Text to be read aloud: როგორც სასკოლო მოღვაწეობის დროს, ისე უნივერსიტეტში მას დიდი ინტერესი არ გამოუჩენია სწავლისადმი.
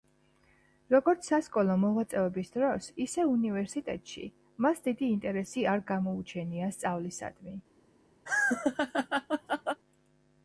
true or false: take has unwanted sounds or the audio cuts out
true